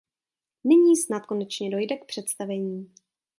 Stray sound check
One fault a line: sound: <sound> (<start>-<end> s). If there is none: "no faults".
no faults